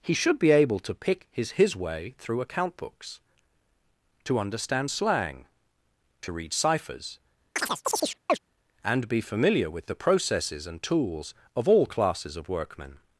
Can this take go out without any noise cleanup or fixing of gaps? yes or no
no